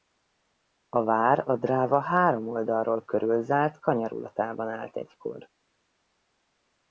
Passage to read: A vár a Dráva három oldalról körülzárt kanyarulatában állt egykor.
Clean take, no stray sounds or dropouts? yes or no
yes